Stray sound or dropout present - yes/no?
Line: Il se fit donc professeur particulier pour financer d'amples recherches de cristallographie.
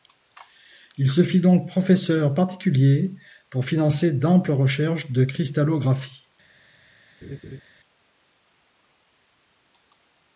yes